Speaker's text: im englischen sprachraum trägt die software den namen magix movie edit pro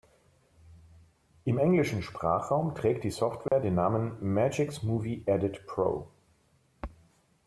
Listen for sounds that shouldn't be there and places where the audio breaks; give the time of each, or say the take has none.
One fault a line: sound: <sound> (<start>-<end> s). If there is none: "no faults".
sound: dropout (3.5-3.5 s)